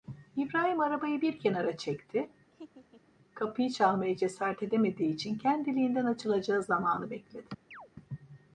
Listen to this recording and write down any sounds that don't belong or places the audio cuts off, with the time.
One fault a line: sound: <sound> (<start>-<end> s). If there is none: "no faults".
sound: laugh (2.5-3.1 s)
sound: chirp (7.7-7.9 s)